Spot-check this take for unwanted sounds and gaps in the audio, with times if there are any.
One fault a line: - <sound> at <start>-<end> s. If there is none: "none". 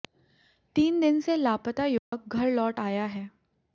- dropout at 2.0-2.1 s